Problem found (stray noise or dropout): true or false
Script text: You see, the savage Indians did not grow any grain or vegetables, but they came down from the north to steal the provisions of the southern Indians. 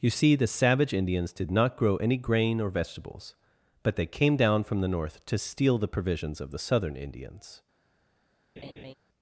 true